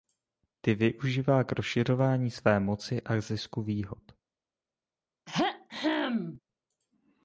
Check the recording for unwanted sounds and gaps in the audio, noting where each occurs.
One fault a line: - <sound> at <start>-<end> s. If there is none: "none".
- throat clearing at 5.3-6.4 s